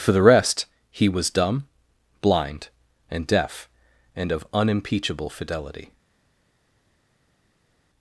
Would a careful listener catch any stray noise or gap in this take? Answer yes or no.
no